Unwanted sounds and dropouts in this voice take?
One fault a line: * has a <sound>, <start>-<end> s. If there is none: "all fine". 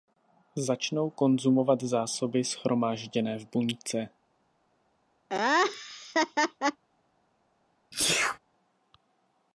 * has a laugh, 5.3-6.8 s
* has a sneeze, 7.9-8.4 s